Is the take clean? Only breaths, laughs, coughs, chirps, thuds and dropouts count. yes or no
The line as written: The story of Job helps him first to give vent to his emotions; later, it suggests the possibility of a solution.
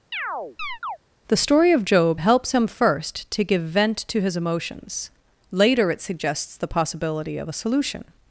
no